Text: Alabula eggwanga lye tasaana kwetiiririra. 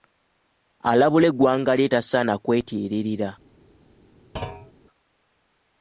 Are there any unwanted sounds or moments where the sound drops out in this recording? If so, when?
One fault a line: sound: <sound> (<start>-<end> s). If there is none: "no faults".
sound: thud (4.4-4.7 s)